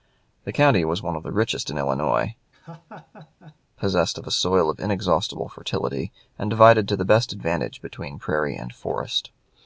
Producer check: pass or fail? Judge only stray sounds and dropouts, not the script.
fail